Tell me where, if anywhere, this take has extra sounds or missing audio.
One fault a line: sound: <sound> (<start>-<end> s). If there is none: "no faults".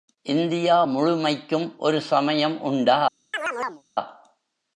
sound: chirp (3.3-3.8 s)